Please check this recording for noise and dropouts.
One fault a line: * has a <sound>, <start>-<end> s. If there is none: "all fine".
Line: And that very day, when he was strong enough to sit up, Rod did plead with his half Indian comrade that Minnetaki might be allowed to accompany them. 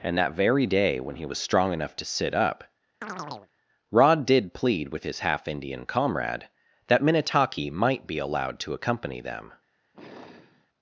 * has a chirp, 3.0-3.5 s
* has a sigh, 9.9-10.7 s